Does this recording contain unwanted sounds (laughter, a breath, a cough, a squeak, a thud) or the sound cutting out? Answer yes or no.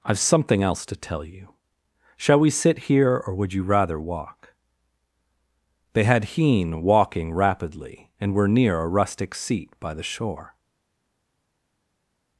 no